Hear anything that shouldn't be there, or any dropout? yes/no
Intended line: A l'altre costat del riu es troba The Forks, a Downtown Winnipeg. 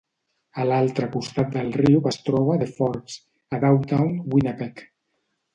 no